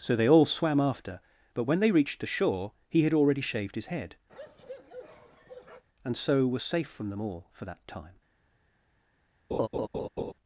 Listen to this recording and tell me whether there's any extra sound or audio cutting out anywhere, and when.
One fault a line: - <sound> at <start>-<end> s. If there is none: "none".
- bark at 4.3-5.8 s
- laugh at 9.5-10.3 s